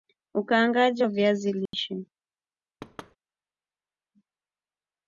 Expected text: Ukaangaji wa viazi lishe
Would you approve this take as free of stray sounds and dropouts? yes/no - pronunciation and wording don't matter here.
no